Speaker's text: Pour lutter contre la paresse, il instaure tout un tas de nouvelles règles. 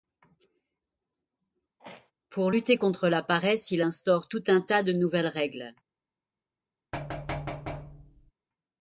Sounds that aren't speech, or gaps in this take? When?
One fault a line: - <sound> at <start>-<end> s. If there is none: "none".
- throat clearing at 1.8-2.1 s
- thud at 6.9-8.3 s